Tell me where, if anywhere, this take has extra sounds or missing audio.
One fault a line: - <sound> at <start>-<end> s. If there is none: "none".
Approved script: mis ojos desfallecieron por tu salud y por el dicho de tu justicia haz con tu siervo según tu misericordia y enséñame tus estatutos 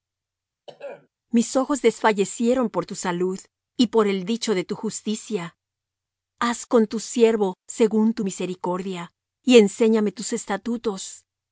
- throat clearing at 0.7-1.1 s